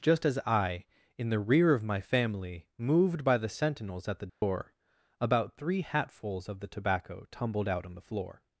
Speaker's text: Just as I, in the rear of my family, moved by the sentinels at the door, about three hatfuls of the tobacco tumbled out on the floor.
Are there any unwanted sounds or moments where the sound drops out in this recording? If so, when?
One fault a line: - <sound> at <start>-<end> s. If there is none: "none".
- dropout at 4.3-4.4 s